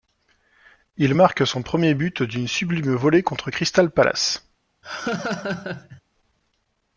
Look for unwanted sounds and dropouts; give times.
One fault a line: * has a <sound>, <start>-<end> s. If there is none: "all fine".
* has a laugh, 4.8-6.0 s